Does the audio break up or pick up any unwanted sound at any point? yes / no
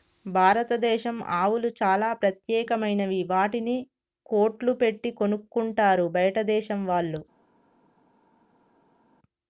no